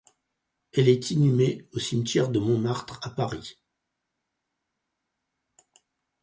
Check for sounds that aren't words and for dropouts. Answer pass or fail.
pass